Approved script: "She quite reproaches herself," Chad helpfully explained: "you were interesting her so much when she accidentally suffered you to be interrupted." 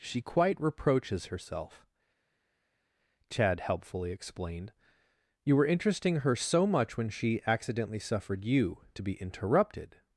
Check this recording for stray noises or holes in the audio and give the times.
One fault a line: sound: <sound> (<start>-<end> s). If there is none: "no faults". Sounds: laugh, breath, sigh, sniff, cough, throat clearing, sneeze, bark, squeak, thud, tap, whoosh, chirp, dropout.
no faults